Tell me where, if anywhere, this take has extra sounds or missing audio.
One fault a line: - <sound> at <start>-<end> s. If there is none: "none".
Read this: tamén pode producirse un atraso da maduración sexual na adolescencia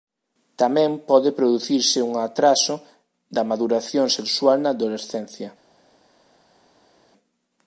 none